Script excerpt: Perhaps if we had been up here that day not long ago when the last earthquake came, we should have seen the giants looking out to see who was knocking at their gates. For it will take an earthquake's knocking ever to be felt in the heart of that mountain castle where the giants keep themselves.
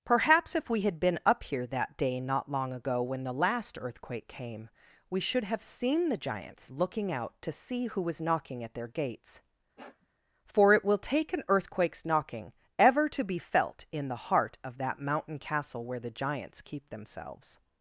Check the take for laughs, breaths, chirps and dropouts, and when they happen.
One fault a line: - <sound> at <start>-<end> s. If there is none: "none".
- sniff at 9.8-10.1 s